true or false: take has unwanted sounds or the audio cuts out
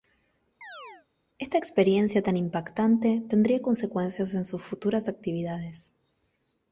true